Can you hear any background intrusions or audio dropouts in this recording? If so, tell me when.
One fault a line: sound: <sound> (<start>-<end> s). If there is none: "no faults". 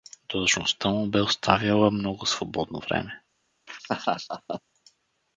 sound: laugh (3.7-4.6 s)